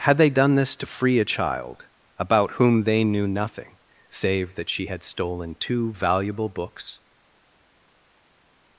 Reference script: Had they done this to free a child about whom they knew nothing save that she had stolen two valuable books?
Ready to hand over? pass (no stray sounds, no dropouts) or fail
pass